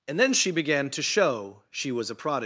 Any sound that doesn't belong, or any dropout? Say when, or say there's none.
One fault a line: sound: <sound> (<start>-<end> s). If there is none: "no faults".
no faults